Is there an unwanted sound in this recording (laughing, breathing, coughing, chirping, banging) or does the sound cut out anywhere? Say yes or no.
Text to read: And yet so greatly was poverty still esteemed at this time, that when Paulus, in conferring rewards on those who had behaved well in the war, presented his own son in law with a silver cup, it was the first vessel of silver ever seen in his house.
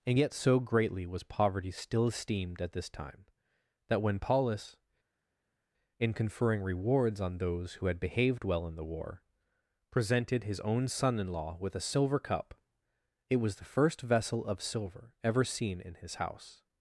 no